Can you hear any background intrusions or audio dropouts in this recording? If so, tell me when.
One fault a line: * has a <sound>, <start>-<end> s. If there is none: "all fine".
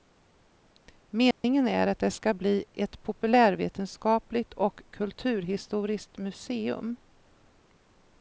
* has a dropout, 1.3-1.4 s